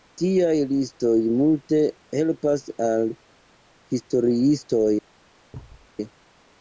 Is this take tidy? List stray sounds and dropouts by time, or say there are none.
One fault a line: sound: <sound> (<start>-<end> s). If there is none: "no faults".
sound: thud (5.5-5.9 s)